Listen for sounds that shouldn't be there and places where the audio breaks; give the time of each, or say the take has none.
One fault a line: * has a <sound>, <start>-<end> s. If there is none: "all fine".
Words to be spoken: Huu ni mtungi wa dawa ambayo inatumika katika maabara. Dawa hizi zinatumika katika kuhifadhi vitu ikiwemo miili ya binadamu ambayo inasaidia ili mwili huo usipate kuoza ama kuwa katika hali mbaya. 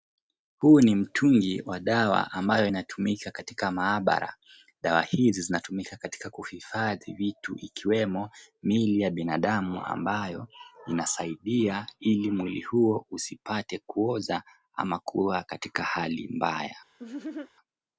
* has a laugh, 17.0-17.5 s